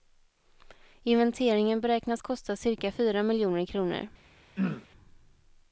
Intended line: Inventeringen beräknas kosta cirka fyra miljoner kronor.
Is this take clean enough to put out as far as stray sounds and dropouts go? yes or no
no